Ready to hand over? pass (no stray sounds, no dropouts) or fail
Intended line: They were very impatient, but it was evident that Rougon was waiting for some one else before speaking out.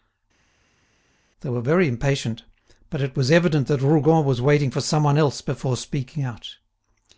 pass